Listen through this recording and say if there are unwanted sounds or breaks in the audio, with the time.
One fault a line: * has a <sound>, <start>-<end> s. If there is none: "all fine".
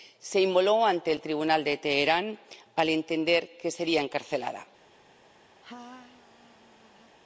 * has a laugh, 5.6-7.2 s